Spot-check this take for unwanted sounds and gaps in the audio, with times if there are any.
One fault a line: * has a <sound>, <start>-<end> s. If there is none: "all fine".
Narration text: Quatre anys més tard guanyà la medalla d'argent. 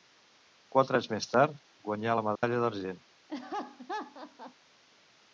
* has a dropout, 2.4-2.4 s
* has a laugh, 3.3-4.5 s